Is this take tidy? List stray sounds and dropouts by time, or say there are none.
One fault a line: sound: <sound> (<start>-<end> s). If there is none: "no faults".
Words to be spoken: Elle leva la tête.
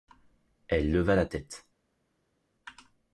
no faults